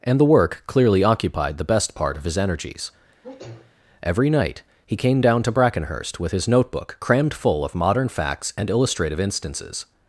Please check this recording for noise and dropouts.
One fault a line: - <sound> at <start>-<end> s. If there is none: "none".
- sneeze at 3.2-3.8 s